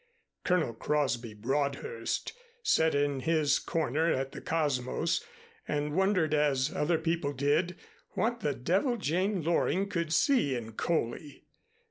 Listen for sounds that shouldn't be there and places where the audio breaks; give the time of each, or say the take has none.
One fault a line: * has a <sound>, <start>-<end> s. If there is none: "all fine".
all fine